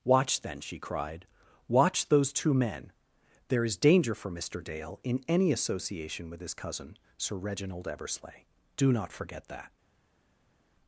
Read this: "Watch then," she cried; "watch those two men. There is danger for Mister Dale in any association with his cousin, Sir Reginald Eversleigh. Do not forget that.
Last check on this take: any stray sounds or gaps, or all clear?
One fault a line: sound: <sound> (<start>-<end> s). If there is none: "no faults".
no faults